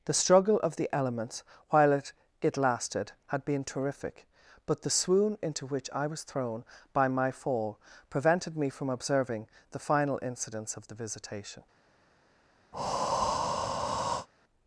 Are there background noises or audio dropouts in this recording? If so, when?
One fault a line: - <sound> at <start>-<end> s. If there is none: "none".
- breath at 12.7-14.3 s